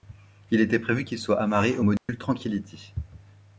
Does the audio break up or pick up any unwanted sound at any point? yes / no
yes